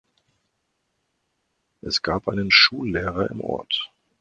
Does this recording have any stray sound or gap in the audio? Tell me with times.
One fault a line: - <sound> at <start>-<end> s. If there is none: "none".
none